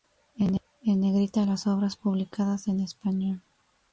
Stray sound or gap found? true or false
false